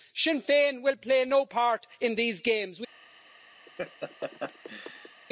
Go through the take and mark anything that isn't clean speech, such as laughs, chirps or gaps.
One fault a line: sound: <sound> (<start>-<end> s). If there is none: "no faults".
sound: laugh (3.7-5.2 s)